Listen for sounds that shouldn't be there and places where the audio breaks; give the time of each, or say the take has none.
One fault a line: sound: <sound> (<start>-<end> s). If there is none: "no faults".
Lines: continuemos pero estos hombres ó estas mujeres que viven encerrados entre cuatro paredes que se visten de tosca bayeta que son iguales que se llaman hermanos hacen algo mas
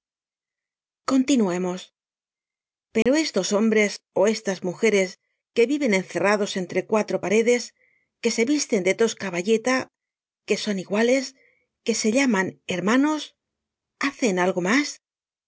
sound: dropout (3.0-3.1 s)